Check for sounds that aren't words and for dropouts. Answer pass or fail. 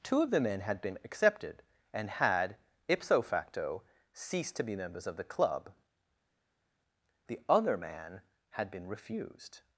pass